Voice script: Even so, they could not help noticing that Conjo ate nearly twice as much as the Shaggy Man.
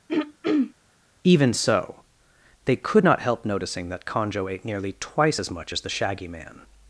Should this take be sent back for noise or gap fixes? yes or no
yes